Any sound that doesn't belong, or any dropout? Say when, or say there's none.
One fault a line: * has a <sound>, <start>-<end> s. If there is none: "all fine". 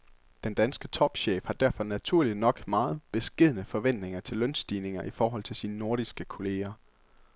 all fine